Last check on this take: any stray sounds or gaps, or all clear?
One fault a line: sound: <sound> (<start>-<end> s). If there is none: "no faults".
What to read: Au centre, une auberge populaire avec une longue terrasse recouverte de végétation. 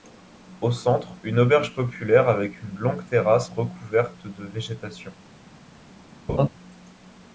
sound: laugh (6.3-6.5 s)